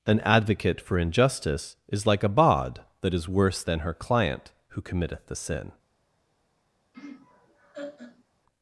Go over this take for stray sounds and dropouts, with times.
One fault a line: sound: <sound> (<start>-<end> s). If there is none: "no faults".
sound: laugh (6.9-8.2 s)